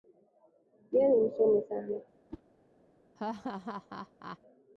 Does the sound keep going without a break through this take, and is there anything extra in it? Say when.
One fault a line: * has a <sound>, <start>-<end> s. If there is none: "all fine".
* has a whoosh, 2.3-2.4 s
* has a laugh, 3.2-4.4 s